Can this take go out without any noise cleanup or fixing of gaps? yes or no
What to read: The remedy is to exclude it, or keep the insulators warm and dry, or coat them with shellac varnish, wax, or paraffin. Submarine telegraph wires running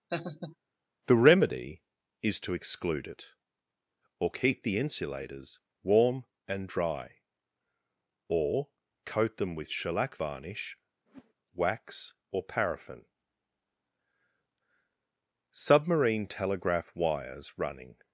no